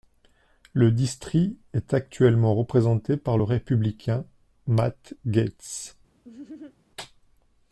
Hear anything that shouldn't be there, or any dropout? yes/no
yes